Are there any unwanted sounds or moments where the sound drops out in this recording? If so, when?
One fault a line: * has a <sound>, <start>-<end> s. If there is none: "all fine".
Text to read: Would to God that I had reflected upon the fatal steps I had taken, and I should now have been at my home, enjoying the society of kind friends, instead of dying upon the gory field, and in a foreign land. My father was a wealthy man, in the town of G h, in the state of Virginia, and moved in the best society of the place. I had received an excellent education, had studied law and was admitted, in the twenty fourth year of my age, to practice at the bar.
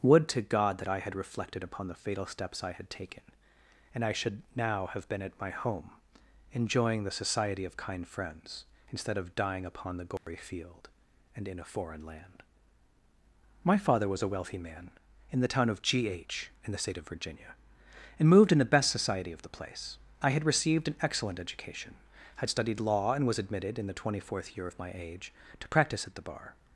* has a dropout, 10.2-10.3 s